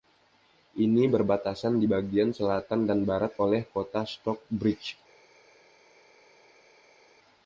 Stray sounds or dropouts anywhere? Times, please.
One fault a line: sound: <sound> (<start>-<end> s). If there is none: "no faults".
no faults